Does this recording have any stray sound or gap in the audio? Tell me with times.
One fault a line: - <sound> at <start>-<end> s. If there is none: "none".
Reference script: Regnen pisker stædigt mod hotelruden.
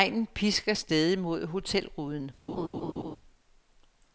- laugh at 2.5-3.2 s